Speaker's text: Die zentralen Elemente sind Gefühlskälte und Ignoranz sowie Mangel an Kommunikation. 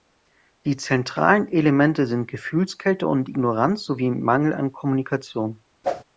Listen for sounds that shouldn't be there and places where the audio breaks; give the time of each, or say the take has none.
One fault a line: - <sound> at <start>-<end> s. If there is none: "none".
- whoosh at 5.8-6.0 s